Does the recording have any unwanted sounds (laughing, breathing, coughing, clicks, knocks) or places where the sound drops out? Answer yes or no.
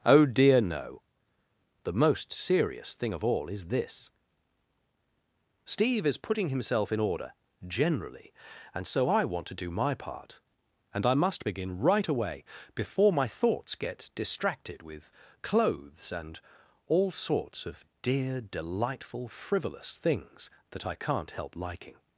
no